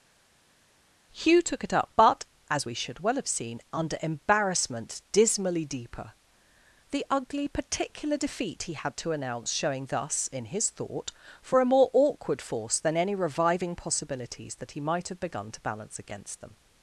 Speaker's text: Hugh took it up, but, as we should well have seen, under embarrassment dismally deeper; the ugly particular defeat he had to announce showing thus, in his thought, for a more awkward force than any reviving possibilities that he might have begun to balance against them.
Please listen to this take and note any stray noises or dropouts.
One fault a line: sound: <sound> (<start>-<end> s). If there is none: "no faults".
no faults